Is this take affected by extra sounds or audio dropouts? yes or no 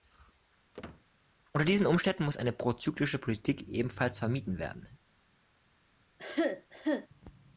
yes